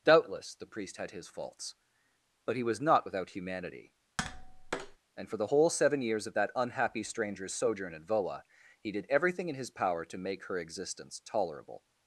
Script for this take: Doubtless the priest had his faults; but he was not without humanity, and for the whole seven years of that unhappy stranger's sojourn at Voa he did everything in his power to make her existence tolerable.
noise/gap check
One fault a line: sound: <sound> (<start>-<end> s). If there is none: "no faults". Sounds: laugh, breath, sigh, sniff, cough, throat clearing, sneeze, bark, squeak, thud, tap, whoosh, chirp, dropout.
sound: tap (4.2-5.0 s)